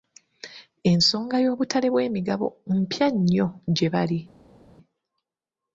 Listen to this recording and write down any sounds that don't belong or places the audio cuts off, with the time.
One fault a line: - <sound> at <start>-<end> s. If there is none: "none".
none